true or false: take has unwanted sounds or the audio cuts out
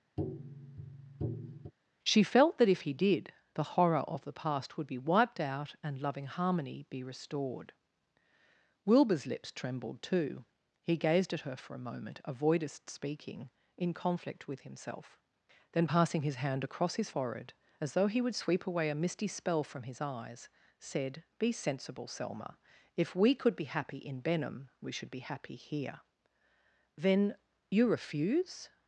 true